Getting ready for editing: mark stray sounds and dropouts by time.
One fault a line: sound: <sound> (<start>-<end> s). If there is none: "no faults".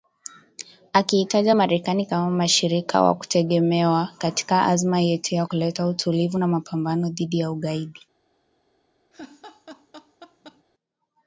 sound: laugh (9.1-10.6 s)